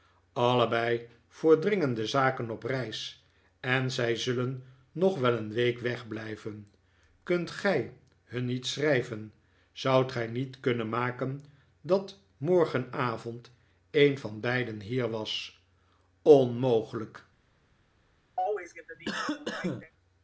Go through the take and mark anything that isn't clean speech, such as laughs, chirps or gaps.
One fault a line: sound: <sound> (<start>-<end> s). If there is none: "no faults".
sound: cough (18.4-19.9 s)